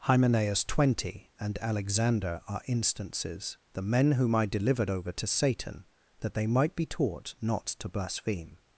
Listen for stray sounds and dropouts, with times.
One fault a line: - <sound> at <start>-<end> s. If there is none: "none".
none